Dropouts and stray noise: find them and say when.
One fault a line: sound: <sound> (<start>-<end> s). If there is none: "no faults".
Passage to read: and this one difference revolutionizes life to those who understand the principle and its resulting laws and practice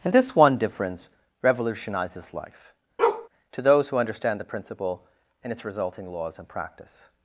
sound: bark (3.0-3.3 s)